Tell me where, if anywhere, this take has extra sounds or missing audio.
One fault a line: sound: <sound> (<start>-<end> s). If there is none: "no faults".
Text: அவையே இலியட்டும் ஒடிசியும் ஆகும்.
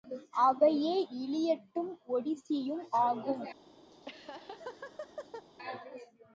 sound: laugh (3.9-5.5 s)